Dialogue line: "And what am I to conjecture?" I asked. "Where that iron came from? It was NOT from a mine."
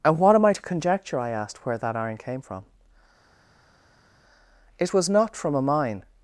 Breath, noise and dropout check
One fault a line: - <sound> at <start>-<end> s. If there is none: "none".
none